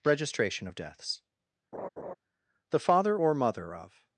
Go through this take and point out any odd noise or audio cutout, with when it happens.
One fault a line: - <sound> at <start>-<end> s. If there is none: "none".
- laugh at 1.7-2.1 s